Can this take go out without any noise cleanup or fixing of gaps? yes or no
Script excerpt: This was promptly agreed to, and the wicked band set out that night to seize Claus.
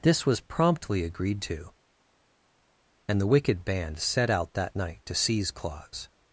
yes